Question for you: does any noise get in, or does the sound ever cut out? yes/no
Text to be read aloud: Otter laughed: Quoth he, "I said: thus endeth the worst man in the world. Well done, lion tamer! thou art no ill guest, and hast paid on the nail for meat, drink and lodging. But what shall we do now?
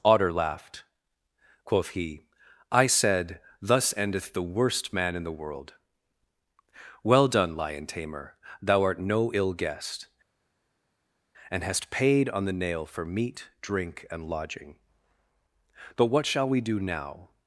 no